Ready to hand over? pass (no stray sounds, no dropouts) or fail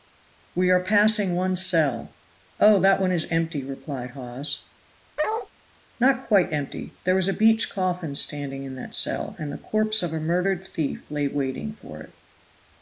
fail